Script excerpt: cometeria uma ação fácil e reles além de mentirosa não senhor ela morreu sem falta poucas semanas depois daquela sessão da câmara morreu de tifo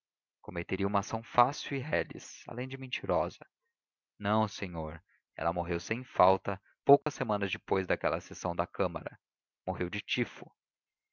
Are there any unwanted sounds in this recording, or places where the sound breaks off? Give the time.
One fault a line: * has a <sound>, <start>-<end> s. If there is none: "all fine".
* has a dropout, 7.0-7.1 s